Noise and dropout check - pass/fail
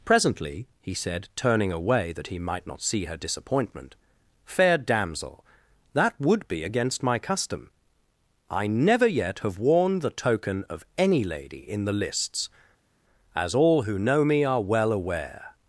pass